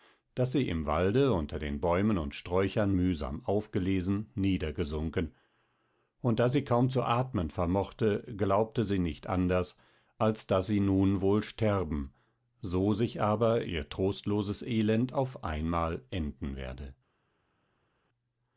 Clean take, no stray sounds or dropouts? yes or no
yes